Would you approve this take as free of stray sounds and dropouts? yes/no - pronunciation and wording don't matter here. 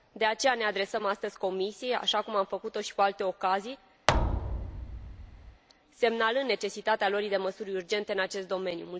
no